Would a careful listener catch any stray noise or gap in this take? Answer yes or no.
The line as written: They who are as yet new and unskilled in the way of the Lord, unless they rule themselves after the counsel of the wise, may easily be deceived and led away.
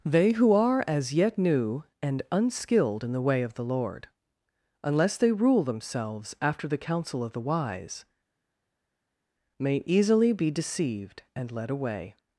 no